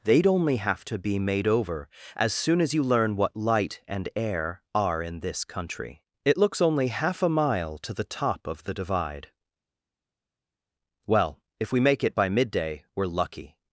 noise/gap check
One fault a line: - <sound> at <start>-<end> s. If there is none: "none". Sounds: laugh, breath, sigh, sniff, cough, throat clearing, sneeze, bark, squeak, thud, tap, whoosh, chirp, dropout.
none